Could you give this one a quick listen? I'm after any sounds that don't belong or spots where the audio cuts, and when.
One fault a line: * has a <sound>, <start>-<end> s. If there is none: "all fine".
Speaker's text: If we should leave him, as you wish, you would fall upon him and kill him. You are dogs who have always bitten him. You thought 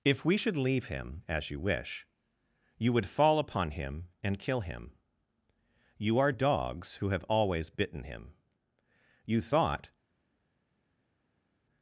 all fine